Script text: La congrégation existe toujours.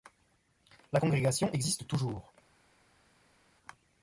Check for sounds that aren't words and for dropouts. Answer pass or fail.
pass